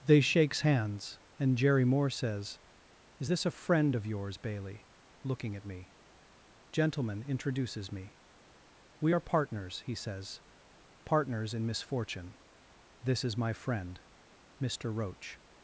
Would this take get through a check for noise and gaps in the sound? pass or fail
pass